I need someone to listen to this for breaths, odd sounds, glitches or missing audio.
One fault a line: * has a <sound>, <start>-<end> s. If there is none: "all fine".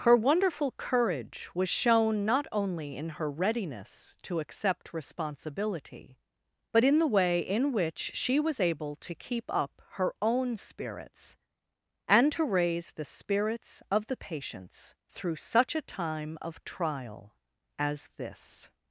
all fine